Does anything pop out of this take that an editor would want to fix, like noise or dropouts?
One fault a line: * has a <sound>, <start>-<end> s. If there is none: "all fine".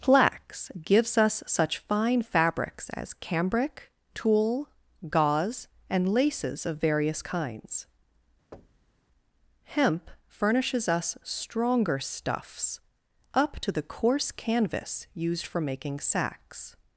* has a thud, 8.5-9.0 s